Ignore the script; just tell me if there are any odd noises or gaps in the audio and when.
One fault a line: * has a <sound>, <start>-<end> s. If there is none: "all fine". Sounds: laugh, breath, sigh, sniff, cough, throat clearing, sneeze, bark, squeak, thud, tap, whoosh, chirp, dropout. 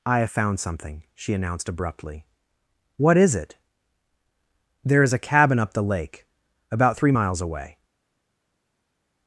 all fine